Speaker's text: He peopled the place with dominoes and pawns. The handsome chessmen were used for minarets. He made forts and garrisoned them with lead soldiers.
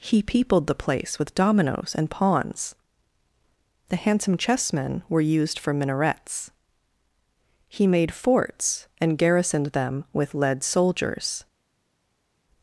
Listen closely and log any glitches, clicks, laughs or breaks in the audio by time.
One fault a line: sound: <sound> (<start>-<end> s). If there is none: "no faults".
no faults